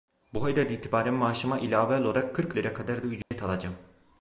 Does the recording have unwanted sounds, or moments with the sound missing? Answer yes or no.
yes